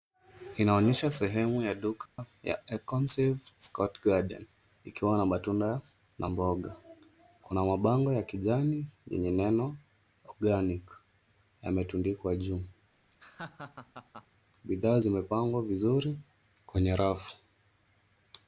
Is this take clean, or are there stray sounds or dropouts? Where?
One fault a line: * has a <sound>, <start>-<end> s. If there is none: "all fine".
* has a dropout, 2.1-2.2 s
* has a laugh, 13.0-14.3 s